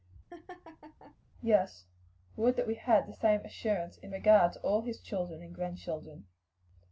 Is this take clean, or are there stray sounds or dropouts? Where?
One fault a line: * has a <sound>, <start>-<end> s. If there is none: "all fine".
* has a laugh, 0.3-1.2 s